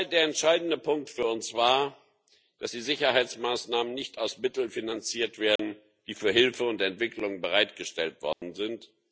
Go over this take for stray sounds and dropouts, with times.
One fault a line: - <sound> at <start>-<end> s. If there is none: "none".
- dropout at 5.6-5.6 s
- dropout at 8.3-8.4 s